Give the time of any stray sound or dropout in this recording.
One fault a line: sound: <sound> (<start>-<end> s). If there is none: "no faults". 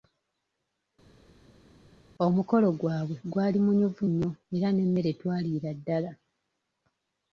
no faults